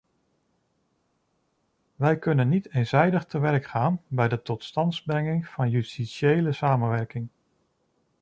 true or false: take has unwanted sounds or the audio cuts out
false